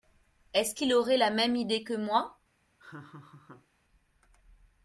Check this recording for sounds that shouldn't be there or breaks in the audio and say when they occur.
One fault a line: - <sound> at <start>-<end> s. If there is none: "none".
- laugh at 2.8-3.7 s